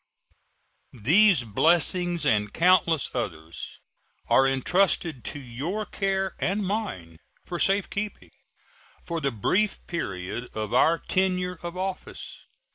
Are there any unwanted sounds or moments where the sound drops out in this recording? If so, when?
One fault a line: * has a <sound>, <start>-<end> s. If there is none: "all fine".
all fine